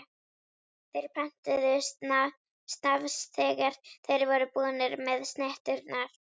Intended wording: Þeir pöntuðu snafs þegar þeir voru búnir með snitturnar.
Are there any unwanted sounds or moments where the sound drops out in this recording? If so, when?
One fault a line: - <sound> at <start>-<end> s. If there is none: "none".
none